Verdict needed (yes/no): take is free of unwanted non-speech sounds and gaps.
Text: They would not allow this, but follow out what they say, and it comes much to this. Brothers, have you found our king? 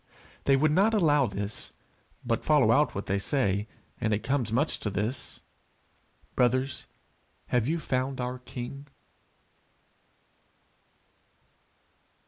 yes